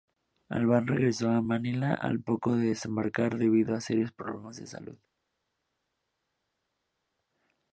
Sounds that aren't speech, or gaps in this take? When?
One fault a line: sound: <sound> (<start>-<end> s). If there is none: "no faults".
no faults